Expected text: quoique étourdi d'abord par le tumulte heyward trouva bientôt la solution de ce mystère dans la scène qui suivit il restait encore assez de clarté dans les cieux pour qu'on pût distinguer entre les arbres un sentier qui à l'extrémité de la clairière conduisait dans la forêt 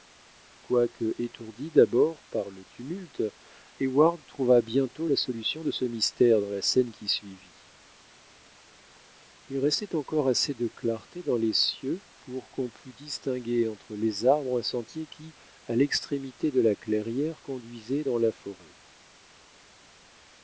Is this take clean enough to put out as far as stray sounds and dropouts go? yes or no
yes